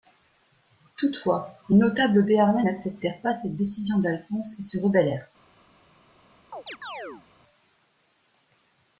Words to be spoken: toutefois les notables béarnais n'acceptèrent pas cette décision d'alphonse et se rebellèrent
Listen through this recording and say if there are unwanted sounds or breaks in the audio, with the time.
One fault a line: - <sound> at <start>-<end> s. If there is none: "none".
- chirp at 6.5-7.3 s